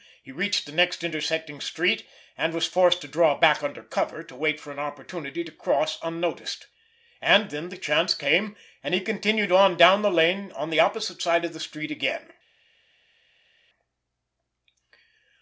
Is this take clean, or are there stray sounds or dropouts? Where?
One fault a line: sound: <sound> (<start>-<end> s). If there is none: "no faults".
no faults